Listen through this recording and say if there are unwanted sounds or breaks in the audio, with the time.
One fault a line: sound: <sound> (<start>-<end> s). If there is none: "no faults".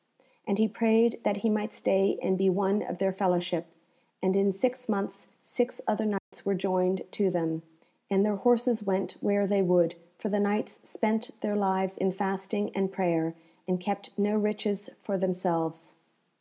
sound: dropout (6.2-6.3 s)